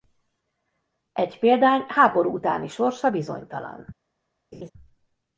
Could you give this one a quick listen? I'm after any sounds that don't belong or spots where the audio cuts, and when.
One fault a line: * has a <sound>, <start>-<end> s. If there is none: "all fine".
* has a laugh, 4.5-4.7 s